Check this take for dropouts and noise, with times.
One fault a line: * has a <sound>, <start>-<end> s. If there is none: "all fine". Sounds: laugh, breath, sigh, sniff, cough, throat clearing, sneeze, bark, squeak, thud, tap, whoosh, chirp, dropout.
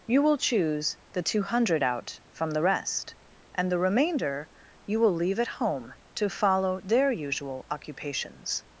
all fine